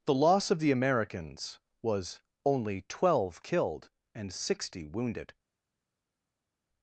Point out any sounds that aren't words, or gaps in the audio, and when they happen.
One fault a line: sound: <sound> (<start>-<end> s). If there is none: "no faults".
no faults